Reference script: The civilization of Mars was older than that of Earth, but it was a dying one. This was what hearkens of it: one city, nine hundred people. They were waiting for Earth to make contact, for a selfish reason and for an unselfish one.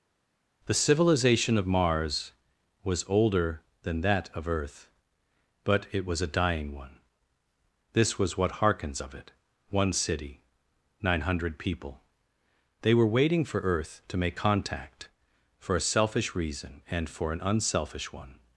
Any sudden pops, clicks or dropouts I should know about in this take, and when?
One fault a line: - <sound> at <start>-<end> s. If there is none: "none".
none